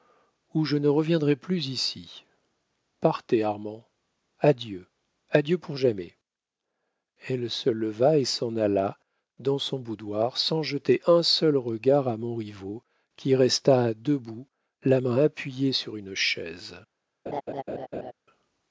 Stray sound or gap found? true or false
true